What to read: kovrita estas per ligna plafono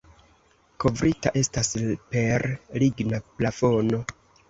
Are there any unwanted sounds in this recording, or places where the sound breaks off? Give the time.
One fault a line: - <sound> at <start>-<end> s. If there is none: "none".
none